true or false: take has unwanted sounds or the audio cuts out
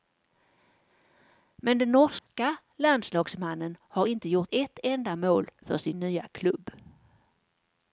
true